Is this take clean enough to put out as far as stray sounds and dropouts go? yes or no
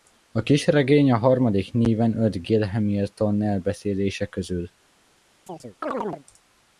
no